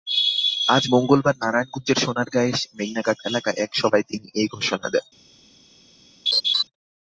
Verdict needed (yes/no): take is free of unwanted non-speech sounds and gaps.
no